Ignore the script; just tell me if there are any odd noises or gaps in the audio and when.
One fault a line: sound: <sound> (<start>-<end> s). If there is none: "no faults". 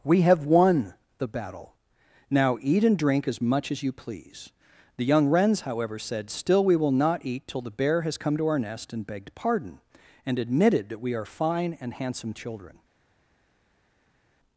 no faults